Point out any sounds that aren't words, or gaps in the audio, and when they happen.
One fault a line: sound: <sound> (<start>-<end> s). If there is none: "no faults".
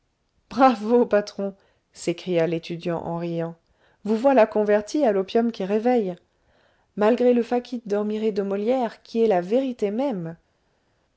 no faults